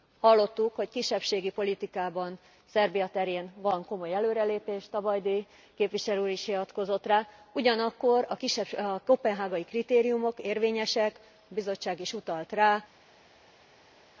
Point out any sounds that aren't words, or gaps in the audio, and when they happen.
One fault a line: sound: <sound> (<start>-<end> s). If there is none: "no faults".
no faults